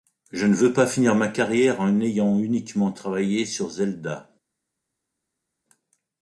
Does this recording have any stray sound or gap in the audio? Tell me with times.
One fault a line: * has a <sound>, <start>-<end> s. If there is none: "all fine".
all fine